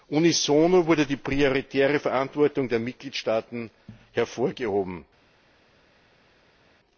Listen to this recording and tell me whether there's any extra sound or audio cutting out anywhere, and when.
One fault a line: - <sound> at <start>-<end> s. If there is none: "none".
none